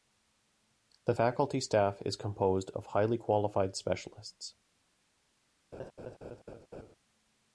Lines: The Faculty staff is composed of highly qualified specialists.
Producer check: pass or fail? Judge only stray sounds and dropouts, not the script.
fail